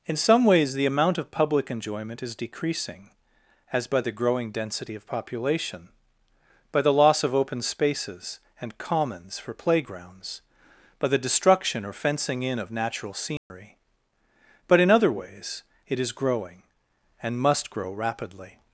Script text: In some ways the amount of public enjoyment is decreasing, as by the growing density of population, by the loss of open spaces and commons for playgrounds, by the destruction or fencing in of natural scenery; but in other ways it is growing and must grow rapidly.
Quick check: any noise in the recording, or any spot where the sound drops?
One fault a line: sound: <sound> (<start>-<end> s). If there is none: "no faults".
sound: dropout (13.4-13.5 s)